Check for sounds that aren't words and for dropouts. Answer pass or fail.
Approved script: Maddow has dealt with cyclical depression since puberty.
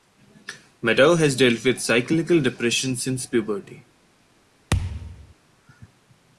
fail